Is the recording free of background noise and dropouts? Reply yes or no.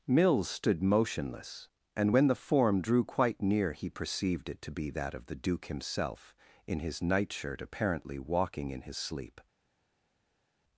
yes